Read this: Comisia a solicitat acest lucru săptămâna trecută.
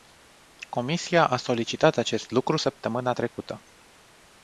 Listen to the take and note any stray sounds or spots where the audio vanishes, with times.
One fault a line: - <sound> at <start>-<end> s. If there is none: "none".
none